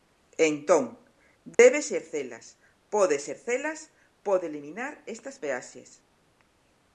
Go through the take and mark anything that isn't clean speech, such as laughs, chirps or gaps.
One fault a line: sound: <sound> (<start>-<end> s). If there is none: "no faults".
sound: dropout (1.5-1.6 s)